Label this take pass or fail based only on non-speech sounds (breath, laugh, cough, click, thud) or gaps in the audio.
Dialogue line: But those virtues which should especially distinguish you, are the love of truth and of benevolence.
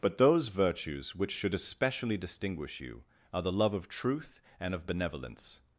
pass